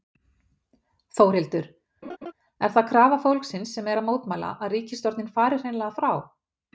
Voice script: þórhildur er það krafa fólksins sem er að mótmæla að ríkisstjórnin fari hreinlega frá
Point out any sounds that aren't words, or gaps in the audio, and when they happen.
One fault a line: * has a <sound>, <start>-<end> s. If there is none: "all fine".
* has a laugh, 2.0-2.3 s